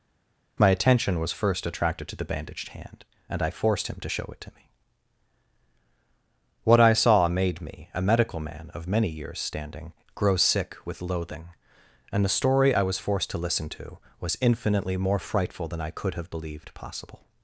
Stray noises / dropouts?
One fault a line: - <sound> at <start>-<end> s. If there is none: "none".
none